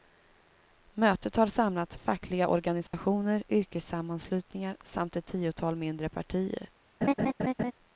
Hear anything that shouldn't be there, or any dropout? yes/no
yes